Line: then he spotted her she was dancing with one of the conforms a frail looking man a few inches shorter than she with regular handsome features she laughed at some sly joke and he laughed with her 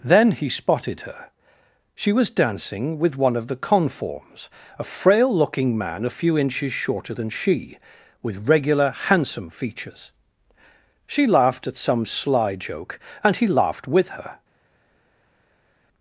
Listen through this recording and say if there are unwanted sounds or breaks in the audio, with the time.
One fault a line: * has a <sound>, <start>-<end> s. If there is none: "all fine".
all fine